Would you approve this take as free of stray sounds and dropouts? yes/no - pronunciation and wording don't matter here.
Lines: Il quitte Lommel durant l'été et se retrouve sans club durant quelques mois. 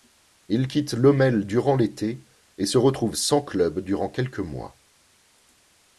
yes